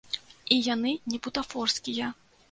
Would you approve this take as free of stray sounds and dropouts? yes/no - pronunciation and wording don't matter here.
yes